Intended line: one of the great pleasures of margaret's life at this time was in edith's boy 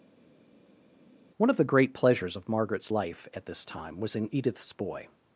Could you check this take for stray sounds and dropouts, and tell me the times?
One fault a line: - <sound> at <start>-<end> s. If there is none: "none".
none